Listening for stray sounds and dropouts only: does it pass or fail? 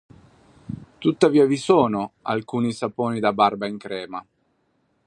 pass